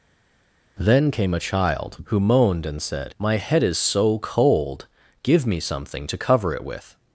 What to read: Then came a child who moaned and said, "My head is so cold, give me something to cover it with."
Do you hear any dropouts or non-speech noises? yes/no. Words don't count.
no